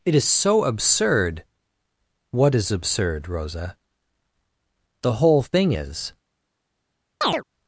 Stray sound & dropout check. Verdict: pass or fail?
fail